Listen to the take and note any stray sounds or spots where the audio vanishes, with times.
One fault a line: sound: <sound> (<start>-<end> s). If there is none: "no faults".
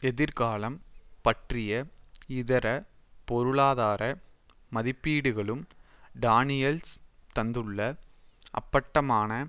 no faults